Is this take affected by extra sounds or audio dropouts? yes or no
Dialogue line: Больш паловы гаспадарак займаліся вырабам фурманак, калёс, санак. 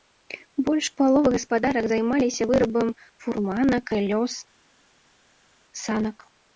no